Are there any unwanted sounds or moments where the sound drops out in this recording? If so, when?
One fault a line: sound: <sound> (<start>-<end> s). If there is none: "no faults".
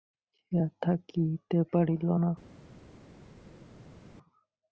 no faults